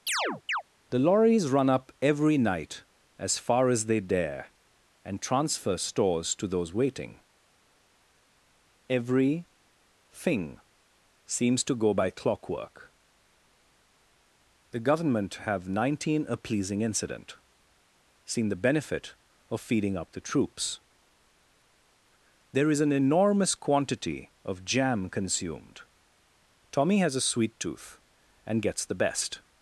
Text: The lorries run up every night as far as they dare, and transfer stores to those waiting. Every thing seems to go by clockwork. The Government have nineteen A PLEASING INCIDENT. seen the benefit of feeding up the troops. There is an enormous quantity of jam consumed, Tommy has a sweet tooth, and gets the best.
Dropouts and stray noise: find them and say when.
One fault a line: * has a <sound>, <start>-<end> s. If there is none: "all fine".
* has a chirp, 0.1-0.6 s